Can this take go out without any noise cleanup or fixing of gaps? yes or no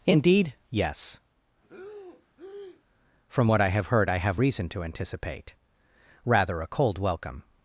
no